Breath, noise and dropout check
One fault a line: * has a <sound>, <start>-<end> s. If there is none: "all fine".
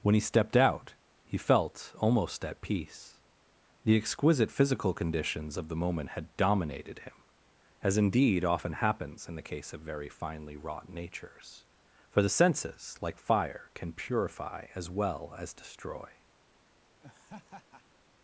* has a laugh, 17.0-18.0 s